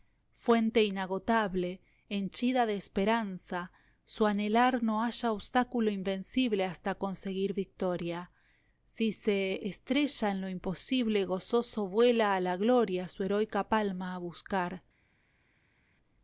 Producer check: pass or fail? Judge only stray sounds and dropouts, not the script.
pass